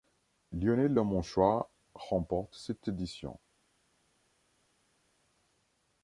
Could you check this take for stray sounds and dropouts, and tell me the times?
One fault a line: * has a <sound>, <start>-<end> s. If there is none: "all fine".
all fine